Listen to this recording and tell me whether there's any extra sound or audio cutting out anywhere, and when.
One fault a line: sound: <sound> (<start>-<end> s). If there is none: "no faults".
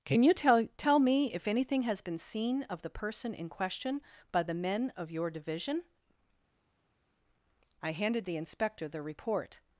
no faults